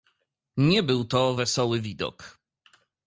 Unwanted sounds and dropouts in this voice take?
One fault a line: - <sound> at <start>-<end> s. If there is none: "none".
none